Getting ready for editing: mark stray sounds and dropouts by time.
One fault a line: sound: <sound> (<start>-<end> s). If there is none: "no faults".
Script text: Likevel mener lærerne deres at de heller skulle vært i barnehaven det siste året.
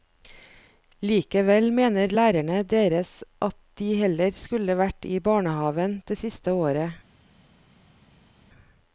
no faults